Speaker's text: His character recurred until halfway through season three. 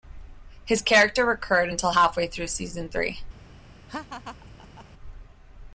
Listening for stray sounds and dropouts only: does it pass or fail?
fail